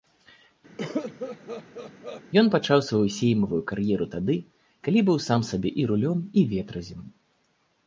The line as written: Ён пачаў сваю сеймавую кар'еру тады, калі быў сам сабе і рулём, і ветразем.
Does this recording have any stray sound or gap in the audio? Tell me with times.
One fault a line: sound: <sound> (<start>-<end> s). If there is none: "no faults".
sound: cough (0.8-2.2 s)